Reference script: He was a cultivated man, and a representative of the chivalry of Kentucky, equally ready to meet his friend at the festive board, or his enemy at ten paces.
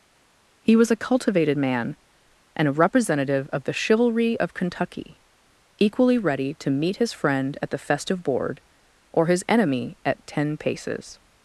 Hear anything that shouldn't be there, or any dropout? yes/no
no